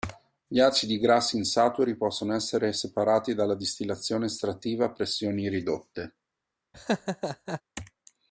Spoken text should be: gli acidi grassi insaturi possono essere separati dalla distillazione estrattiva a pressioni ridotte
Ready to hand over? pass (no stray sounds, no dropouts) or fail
fail